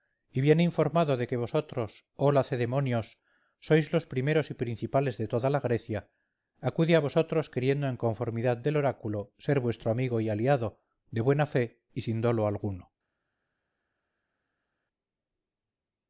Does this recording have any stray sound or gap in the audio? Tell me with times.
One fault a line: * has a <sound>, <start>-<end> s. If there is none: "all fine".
all fine